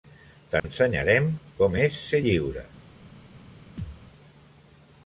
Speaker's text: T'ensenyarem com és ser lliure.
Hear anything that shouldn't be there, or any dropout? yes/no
yes